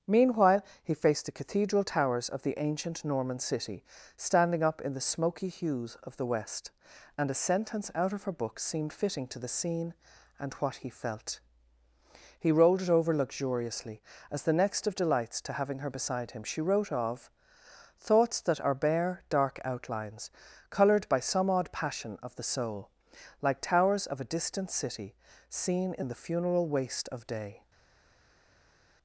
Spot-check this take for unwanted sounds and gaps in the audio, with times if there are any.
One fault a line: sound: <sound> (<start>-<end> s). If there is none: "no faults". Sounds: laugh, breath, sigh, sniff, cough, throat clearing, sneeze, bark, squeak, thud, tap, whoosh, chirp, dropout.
no faults